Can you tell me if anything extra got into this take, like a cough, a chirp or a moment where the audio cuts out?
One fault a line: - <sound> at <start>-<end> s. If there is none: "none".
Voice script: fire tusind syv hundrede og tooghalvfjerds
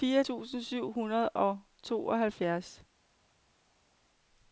none